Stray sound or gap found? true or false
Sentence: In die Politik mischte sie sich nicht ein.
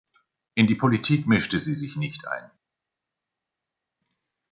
false